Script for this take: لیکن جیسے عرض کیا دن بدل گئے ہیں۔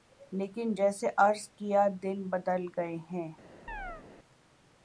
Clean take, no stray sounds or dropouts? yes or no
no